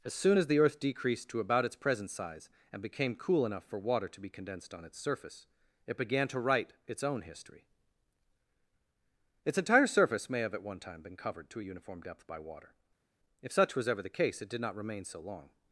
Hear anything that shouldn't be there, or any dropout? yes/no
no